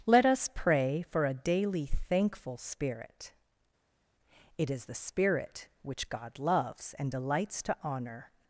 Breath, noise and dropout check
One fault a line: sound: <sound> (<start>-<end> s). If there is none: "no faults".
no faults